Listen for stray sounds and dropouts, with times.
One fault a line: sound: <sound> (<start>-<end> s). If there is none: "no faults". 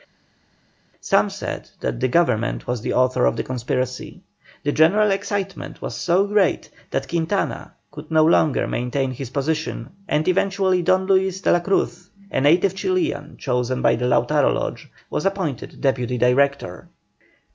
no faults